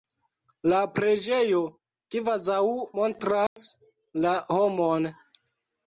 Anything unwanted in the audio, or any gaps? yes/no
yes